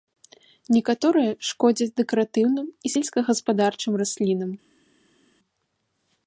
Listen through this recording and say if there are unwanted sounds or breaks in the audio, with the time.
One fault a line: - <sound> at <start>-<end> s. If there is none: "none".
none